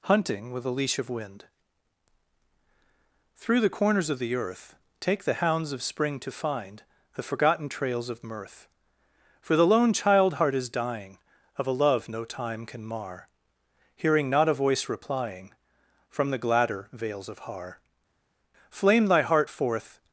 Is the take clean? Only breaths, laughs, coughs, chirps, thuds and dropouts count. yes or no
yes